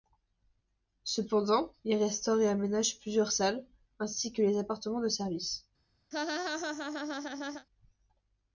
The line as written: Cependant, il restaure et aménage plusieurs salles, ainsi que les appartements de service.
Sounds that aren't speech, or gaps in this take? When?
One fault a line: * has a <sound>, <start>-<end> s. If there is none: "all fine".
* has a laugh, 6.1-7.7 s